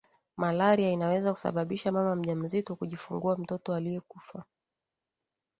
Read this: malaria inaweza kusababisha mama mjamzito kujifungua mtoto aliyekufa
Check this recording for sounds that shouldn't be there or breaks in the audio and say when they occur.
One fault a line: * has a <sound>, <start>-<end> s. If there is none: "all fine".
all fine